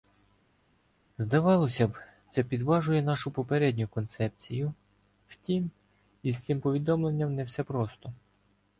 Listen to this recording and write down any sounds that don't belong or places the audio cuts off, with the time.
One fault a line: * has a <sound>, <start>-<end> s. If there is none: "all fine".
all fine